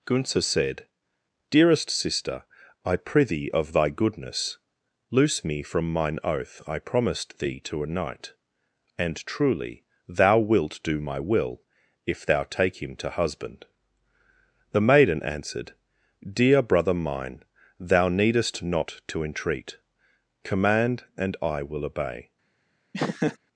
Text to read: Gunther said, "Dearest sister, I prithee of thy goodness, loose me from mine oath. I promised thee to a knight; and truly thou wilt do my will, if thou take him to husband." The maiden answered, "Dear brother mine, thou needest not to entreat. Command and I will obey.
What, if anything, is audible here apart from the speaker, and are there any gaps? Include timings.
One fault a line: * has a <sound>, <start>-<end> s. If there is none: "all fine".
* has a laugh, 22.9-23.4 s